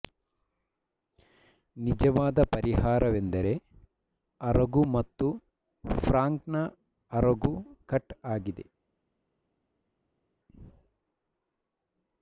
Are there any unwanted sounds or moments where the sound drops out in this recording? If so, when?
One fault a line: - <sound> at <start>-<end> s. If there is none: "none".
none